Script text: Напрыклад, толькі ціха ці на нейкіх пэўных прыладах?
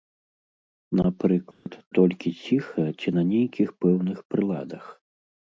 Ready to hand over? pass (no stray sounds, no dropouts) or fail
fail